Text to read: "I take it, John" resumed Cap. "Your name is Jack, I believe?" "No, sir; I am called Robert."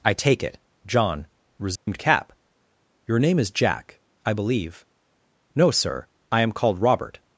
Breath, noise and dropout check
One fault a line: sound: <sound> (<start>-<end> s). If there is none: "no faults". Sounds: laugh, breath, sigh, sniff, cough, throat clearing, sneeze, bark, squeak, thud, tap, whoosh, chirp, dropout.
sound: dropout (1.8-1.9 s)